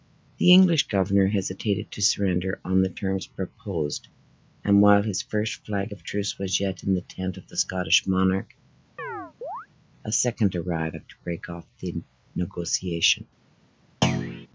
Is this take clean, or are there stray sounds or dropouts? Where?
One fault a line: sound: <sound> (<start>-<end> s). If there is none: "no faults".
sound: chirp (9.0-9.7 s)
sound: thud (14.0-14.5 s)